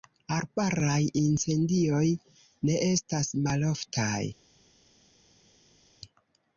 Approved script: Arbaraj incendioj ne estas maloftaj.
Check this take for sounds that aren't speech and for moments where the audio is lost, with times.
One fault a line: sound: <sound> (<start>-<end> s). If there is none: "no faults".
no faults